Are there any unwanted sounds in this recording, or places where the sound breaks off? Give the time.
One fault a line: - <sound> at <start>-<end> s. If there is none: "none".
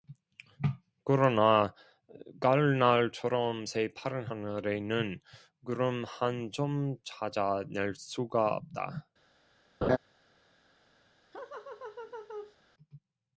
- laugh at 9.8-10.0 s
- laugh at 11.3-12.6 s